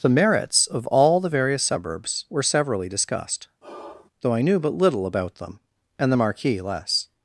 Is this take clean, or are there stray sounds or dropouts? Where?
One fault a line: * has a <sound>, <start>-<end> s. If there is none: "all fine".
* has a sigh, 3.6-4.1 s